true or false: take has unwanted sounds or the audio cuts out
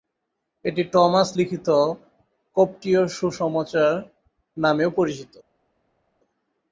false